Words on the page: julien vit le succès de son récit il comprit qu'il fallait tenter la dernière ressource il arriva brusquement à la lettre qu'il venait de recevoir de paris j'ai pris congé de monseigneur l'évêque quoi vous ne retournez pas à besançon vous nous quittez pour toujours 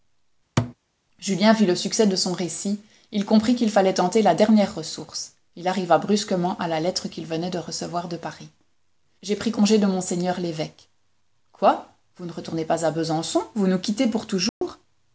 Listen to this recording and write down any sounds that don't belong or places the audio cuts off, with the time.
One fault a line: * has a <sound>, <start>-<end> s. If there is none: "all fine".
* has a thud, 0.6-0.7 s
* has a dropout, 14.5-14.6 s